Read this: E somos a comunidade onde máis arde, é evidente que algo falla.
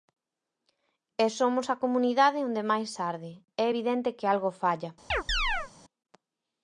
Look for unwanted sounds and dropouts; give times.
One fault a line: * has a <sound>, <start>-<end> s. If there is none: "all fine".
* has a chirp, 5.1-5.7 s